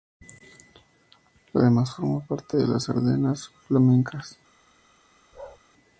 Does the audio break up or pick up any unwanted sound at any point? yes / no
yes